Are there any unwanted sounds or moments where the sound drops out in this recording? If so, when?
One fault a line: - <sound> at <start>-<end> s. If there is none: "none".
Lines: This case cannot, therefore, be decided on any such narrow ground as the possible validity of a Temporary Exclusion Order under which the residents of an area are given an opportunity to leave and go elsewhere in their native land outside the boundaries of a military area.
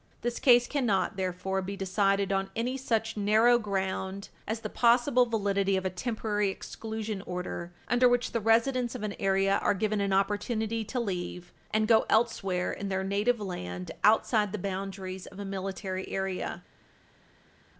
none